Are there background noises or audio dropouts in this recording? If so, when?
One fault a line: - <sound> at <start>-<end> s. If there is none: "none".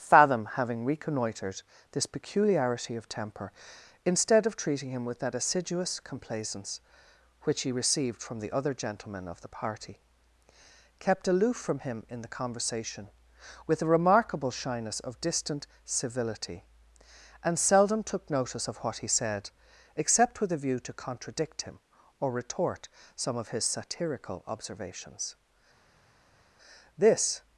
none